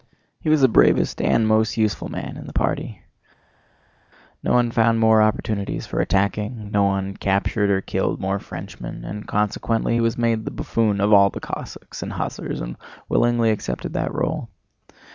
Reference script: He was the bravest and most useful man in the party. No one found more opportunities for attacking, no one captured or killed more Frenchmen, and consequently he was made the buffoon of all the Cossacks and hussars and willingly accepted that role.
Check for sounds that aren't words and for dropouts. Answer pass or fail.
pass